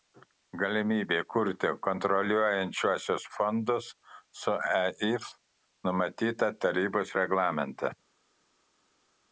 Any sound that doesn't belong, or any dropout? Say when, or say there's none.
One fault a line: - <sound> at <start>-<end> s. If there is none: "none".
none